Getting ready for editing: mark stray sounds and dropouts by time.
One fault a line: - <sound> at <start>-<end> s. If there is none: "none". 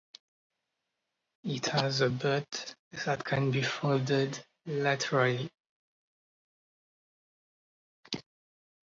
none